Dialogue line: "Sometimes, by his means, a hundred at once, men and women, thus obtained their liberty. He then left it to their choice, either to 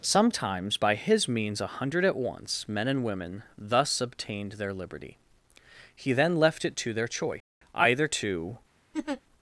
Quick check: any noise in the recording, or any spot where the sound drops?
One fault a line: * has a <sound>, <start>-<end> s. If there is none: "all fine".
* has a laugh, 8.9-9.2 s